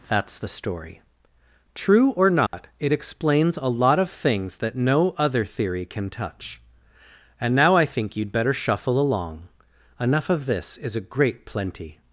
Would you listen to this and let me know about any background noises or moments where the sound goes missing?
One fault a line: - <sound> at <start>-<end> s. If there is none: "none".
- dropout at 2.5-2.5 s